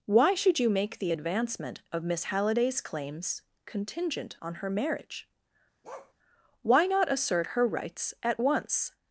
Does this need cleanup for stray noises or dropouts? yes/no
yes